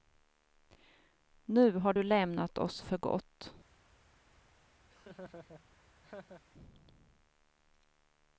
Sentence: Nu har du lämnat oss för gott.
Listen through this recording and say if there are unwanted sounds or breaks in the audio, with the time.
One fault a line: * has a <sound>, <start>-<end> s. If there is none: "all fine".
* has a laugh, 4.9-6.4 s